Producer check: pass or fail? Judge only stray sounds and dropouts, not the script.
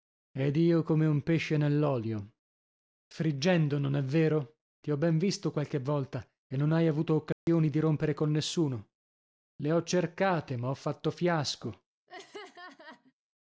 fail